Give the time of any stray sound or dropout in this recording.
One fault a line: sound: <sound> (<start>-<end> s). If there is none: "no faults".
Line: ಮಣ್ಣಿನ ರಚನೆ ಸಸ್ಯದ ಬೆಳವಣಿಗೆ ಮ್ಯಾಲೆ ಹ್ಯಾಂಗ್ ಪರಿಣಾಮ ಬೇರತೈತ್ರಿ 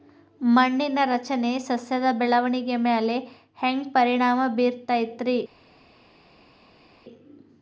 no faults